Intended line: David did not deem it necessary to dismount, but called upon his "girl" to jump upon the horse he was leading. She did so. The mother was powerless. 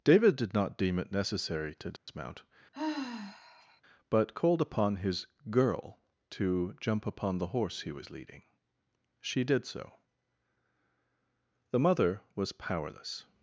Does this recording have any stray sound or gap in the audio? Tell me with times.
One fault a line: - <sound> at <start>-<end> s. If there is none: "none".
- dropout at 2.0-2.1 s
- sigh at 2.7-3.8 s